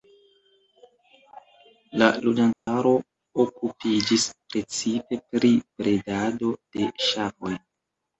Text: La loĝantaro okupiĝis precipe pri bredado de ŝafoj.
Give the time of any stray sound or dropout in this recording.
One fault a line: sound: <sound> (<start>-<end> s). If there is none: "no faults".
sound: dropout (2.5-2.7 s)